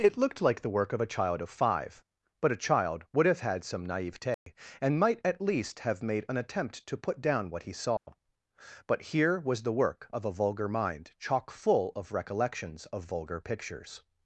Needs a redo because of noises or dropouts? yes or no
yes